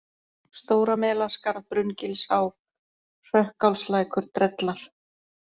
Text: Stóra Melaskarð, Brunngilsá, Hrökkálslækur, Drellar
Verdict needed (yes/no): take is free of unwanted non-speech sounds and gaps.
yes